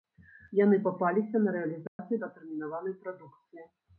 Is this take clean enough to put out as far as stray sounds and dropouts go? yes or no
no